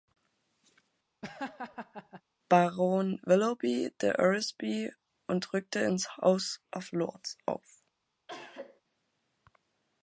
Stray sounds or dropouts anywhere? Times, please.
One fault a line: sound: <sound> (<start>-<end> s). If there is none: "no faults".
sound: laugh (1.2-2.2 s)
sound: cough (8.3-8.8 s)